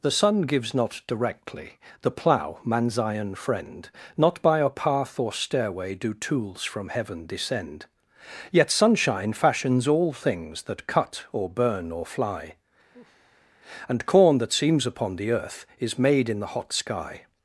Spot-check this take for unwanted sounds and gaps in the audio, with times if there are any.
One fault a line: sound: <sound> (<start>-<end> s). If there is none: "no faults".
sound: sigh (12.9-13.5 s)